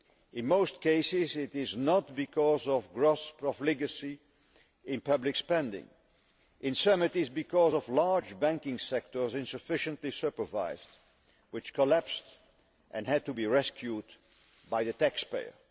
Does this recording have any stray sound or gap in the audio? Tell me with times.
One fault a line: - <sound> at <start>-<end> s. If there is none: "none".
none